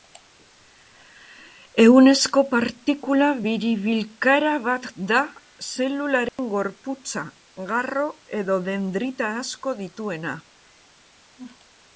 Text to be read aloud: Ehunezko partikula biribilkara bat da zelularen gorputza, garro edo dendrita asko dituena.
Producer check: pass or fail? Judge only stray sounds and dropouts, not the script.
fail